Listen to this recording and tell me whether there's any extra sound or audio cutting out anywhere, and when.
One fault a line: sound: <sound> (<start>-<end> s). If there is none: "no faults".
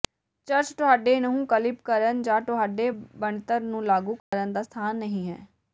sound: dropout (4.2-4.3 s)